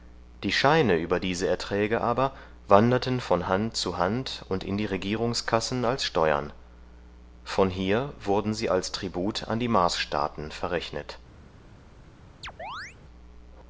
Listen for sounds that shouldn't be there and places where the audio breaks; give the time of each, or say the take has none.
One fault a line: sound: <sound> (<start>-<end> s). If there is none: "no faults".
sound: chirp (12.4-13.0 s)